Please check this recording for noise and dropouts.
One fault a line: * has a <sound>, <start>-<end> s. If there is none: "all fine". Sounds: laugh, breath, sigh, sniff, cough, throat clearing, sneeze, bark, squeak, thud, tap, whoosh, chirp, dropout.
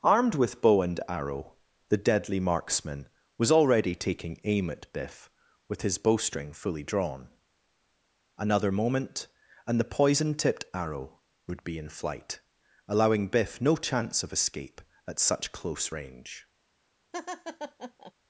* has a laugh, 17.1-18.1 s